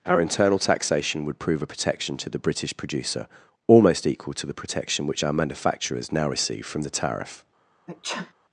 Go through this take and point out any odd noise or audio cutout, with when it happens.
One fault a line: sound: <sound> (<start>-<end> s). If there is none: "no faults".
sound: sneeze (7.9-8.3 s)